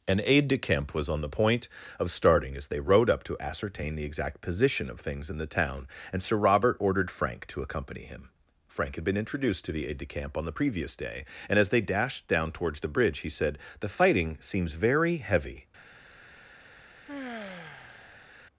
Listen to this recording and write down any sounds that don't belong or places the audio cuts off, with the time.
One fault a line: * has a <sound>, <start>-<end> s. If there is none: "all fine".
* has a sigh, 17.0-18.4 s